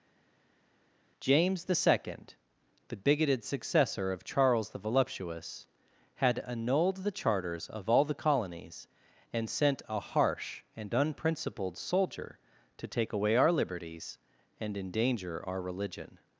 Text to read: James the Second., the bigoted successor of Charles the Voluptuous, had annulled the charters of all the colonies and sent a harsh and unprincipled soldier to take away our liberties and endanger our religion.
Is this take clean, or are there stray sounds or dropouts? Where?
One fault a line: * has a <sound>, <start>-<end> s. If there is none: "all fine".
all fine